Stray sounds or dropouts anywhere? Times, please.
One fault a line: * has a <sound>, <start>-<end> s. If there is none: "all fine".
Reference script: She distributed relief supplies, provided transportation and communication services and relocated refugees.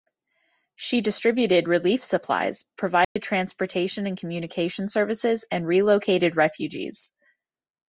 * has a dropout, 3.0-3.2 s